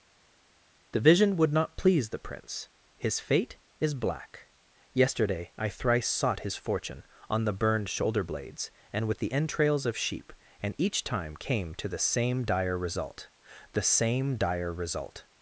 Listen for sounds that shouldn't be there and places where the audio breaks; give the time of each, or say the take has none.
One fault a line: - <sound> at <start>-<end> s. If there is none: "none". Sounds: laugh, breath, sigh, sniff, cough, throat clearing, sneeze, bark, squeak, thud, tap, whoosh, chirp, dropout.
none